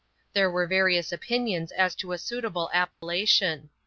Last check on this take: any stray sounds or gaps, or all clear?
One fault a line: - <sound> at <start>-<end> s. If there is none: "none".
- dropout at 2.9-3.0 s